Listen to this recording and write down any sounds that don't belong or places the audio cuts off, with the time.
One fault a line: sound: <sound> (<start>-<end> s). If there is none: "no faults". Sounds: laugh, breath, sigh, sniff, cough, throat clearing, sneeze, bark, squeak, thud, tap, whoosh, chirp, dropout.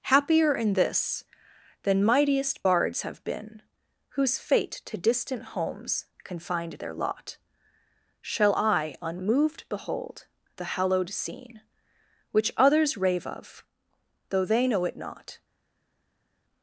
no faults